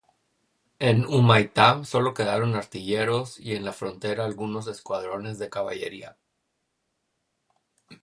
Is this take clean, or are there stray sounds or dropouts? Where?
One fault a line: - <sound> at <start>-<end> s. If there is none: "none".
none